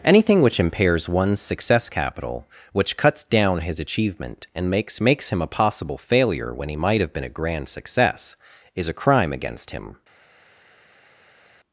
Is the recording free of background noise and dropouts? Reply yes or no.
yes